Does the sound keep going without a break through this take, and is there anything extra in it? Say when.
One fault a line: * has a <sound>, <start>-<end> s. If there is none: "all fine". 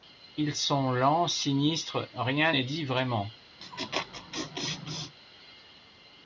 * has a laugh, 3.6-5.2 s